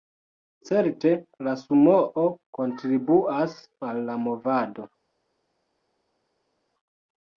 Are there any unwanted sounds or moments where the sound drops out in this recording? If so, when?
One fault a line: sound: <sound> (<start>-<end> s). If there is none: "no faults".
no faults